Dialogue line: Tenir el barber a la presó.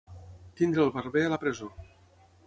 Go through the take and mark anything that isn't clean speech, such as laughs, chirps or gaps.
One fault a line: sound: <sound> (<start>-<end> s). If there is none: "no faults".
no faults